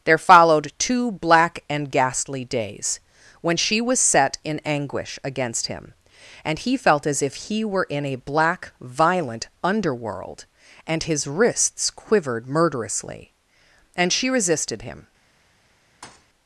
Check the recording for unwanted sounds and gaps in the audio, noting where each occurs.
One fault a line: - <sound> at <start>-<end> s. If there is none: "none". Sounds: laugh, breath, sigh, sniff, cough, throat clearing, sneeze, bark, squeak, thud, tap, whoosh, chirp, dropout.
- thud at 16.0-16.3 s